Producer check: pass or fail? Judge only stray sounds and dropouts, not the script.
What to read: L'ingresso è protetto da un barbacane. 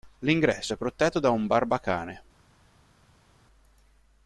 pass